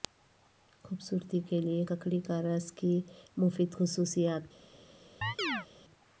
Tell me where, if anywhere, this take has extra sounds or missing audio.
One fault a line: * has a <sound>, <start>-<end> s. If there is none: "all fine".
* has a chirp, 5.2-5.7 s